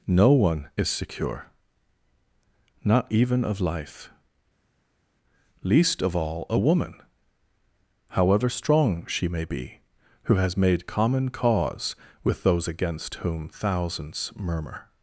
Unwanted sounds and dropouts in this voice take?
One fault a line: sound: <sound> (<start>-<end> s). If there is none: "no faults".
no faults